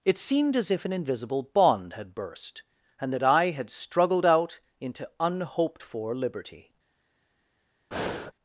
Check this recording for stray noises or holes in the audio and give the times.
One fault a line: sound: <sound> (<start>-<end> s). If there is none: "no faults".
sound: breath (7.9-8.3 s)